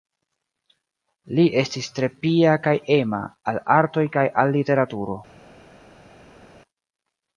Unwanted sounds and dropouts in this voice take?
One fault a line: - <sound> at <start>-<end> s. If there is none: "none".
none